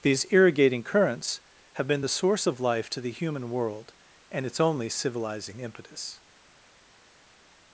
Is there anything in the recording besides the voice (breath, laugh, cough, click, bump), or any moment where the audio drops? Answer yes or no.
no